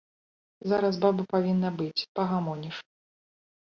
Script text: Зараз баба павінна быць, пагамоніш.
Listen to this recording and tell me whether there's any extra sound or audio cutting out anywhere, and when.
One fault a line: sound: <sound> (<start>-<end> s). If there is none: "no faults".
no faults